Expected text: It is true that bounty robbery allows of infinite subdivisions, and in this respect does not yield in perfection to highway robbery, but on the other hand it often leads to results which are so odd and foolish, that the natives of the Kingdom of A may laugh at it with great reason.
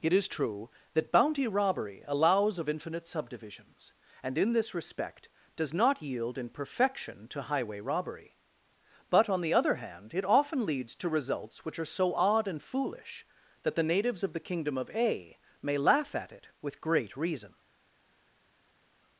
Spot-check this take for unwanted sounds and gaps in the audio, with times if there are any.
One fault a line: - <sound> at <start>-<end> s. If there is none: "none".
none